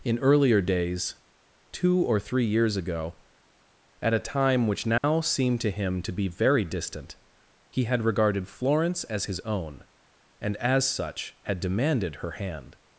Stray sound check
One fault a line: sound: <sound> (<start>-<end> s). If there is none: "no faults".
sound: dropout (5.0-5.0 s)